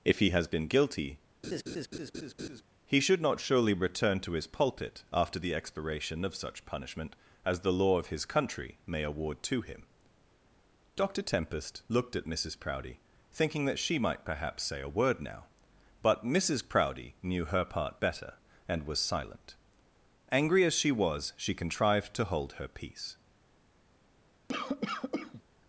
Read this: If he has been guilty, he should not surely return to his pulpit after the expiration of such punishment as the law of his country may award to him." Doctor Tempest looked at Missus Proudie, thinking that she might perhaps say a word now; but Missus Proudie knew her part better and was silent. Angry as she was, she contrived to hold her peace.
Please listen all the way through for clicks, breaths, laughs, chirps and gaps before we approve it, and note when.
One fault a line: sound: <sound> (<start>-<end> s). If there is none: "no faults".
sound: laugh (1.4-2.6 s)
sound: cough (24.5-25.4 s)